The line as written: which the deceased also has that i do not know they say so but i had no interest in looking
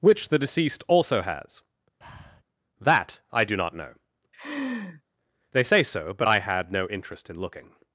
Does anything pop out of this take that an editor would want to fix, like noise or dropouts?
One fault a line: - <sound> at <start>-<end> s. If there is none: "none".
- breath at 2.0-2.4 s
- laugh at 4.3-5.0 s